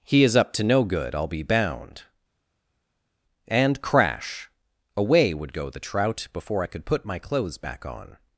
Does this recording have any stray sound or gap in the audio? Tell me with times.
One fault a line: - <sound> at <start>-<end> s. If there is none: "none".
none